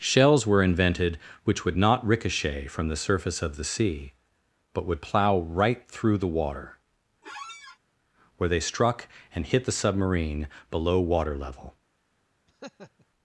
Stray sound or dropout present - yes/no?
yes